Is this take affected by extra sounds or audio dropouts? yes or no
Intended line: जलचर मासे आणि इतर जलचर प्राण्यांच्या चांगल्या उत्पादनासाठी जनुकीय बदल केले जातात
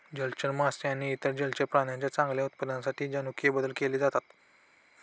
no